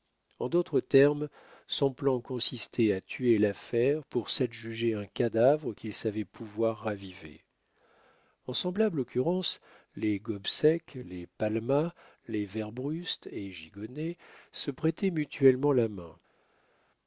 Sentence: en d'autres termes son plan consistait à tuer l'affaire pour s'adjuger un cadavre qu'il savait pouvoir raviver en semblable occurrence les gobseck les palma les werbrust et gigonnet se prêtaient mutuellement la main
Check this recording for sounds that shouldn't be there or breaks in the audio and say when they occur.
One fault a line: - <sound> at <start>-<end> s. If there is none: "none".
none